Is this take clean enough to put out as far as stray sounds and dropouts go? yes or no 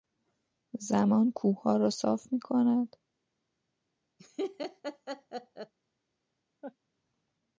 no